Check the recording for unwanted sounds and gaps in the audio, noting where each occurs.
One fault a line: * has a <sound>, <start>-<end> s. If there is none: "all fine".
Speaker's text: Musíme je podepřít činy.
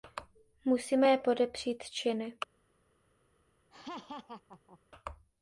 * has a laugh, 3.7-4.8 s